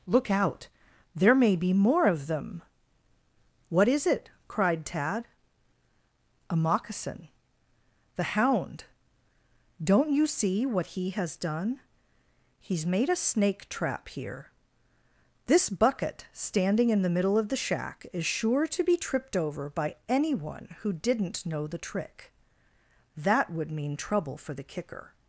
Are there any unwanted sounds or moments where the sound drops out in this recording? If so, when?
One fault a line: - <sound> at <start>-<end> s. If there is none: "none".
none